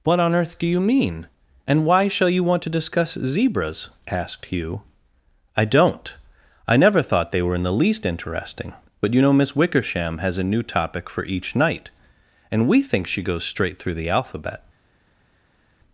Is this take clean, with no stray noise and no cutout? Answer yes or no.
yes